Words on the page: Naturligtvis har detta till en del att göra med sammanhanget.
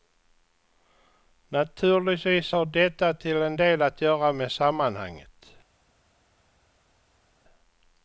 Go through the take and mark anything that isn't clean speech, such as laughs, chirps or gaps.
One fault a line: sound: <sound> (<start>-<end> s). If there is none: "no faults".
no faults